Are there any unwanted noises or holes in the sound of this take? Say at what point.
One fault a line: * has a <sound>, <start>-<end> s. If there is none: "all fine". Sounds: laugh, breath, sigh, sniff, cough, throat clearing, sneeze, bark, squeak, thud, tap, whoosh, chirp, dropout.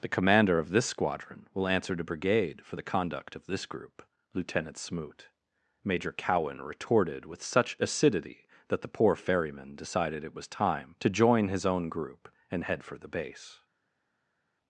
all fine